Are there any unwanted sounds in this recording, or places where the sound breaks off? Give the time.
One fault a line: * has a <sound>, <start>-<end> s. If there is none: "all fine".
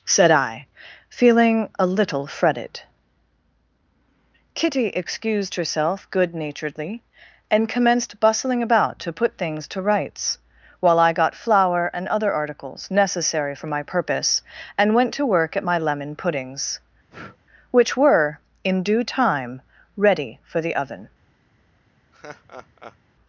* has a breath, 17.1-17.4 s
* has a laugh, 22.1-23.0 s